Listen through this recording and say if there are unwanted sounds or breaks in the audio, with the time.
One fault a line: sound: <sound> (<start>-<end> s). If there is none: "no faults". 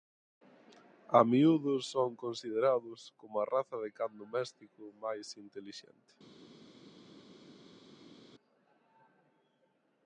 no faults